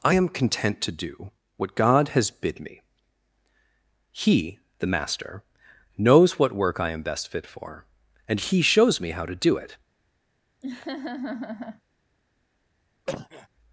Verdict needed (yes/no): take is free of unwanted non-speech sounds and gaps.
no